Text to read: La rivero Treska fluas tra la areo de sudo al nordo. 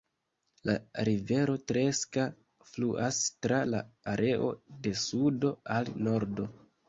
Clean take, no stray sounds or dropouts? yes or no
yes